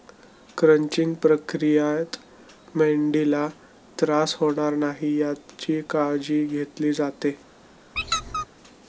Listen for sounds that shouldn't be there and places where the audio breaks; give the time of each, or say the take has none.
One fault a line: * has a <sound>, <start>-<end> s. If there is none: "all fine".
* has a squeak, 8.0-8.5 s